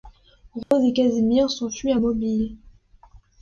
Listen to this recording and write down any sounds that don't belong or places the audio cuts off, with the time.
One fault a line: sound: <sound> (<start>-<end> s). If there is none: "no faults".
sound: dropout (0.6-0.7 s)